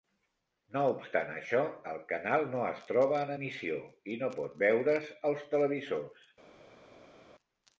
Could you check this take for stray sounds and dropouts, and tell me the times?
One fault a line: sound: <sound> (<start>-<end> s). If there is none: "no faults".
no faults